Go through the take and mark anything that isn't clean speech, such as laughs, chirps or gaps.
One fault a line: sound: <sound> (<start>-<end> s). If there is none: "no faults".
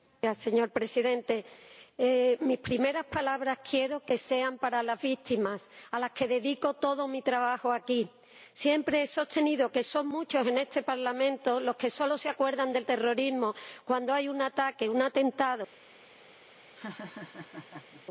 sound: laugh (16.7-18.0 s)